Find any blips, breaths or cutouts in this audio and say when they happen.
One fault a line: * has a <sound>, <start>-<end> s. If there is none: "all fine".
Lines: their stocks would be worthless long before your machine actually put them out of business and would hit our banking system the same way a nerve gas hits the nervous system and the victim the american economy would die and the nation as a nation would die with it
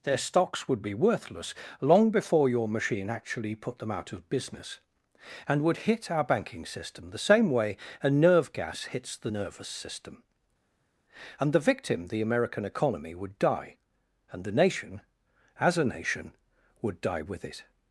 all fine